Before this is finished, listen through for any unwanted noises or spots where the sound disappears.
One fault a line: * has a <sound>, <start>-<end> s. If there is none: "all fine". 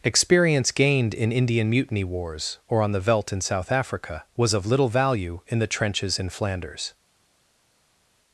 all fine